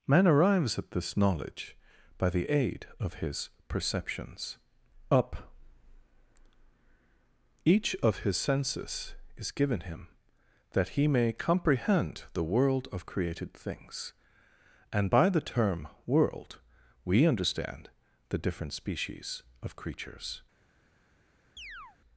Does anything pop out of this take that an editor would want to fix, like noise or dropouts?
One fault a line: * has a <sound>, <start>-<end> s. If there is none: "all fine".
* has a chirp, 21.6-22.0 s